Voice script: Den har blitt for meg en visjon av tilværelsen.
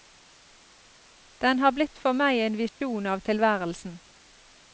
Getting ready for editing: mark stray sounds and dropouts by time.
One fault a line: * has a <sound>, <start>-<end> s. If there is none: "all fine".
* has a dropout, 2.7-2.8 s